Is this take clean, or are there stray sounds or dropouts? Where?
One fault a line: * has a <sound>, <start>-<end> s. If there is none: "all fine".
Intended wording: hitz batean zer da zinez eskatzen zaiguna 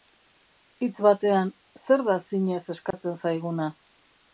* has a dropout, 2.9-2.9 s